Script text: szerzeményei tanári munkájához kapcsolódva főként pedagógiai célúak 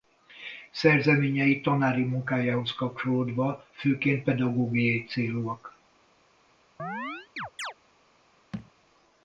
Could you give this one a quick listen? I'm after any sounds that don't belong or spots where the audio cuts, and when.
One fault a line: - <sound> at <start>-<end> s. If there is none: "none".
- chirp at 6.8-7.7 s
- thud at 8.5-8.7 s